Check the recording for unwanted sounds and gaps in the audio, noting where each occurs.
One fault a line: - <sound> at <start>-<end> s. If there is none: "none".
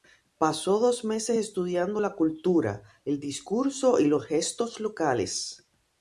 none